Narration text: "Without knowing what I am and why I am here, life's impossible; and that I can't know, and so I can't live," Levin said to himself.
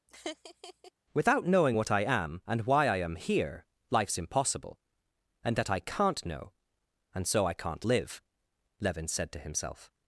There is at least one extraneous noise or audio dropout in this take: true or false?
true